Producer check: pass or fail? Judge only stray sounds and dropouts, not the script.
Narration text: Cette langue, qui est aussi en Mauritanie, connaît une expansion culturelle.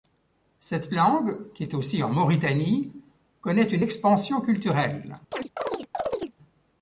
fail